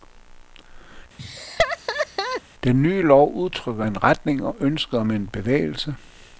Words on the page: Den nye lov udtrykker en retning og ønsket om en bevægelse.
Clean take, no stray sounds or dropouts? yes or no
no